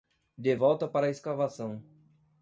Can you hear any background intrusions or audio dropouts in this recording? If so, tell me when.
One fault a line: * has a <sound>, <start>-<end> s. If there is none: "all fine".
all fine